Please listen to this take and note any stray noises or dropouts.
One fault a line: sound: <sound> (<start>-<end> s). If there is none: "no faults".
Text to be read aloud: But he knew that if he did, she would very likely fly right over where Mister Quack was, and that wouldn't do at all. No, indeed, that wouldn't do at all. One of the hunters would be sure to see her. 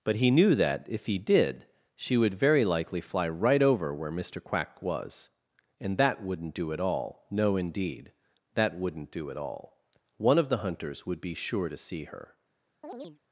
sound: chirp (12.8-13.2 s)